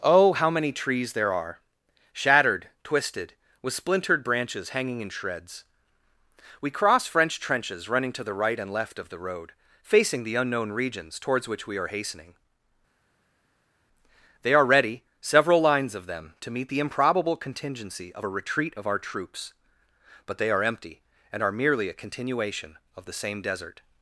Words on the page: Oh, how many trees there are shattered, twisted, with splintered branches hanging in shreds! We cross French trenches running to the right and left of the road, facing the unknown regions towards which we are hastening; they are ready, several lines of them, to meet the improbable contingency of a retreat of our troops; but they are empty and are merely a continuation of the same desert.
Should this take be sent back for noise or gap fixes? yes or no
no